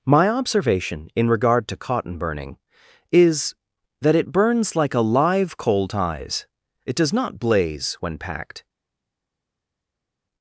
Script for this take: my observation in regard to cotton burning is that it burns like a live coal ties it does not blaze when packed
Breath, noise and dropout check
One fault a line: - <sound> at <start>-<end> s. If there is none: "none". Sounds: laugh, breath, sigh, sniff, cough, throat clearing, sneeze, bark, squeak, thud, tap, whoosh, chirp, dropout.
none